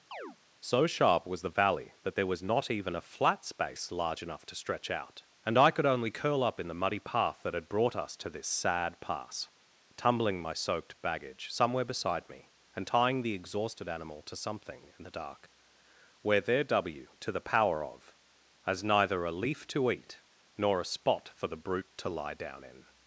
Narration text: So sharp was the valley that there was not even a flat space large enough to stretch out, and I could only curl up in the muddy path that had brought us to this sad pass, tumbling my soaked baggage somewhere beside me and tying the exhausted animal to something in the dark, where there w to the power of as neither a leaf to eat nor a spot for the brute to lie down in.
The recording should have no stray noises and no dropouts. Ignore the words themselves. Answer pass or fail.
fail